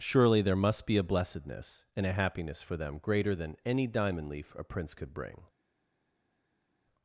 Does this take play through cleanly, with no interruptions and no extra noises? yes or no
yes